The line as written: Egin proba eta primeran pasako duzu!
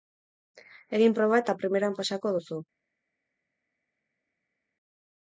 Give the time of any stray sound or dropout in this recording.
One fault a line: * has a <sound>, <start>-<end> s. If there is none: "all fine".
all fine